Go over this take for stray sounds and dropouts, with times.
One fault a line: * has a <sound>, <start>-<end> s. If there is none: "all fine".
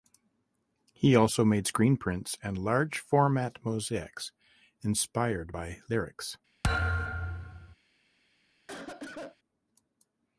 * has a thud, 6.6-7.8 s
* has a cough, 8.7-9.4 s